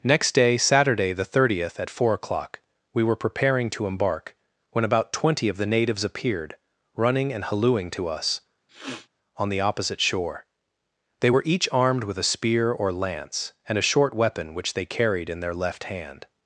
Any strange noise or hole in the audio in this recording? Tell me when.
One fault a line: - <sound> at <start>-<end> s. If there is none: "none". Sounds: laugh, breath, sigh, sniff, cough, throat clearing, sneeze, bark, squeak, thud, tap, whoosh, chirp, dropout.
- sniff at 8.7-9.1 s